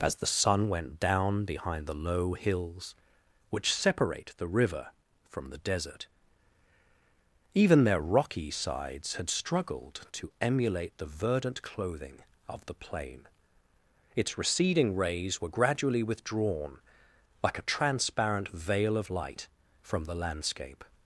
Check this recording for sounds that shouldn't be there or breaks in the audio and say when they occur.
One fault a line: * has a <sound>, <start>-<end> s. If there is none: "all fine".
all fine